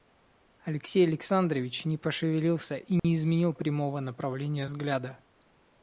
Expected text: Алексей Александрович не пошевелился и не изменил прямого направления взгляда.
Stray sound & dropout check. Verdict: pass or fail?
fail